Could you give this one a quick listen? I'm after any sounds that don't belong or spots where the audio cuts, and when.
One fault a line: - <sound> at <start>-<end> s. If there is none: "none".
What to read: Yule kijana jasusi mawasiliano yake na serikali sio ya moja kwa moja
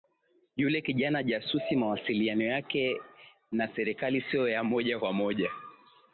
none